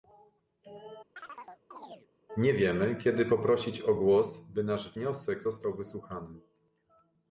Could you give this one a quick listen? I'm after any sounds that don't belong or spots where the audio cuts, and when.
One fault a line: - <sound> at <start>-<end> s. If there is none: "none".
- chirp at 1.2-2.1 s